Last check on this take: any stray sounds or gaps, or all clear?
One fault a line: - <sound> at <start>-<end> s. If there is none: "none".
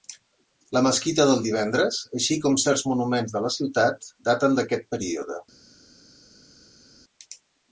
none